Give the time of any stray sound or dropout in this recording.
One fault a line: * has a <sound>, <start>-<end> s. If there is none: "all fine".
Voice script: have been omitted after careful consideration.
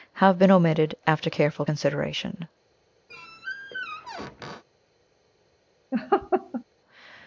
* has a squeak, 3.1-4.6 s
* has a laugh, 5.9-6.6 s